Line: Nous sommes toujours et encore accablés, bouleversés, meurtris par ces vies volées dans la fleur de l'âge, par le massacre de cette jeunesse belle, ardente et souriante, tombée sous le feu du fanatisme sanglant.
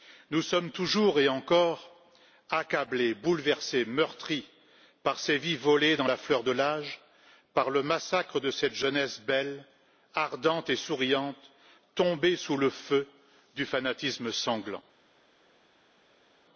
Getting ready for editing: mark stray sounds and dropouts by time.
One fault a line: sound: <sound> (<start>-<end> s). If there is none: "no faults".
no faults